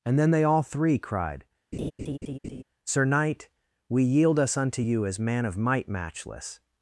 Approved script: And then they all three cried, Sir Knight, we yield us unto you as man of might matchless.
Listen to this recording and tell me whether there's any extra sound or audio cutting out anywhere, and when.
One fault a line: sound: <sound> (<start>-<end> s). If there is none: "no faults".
sound: laugh (1.7-2.6 s)